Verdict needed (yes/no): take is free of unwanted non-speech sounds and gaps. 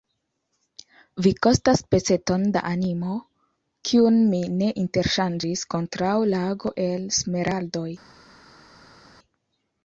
yes